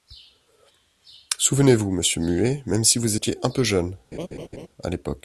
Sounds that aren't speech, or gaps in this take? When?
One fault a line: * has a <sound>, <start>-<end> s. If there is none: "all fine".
* has a laugh, 4.1-4.7 s